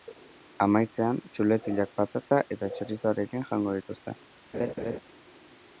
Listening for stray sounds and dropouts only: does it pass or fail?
fail